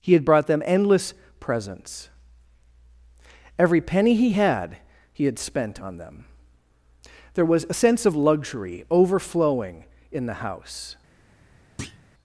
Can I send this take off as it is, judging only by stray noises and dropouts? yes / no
no